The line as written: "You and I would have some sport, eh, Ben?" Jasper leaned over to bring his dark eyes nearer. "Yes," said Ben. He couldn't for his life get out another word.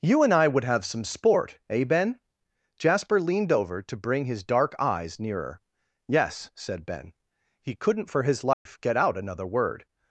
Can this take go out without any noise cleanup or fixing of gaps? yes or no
no